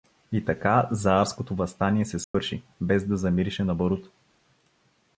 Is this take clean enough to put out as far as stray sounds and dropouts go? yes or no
no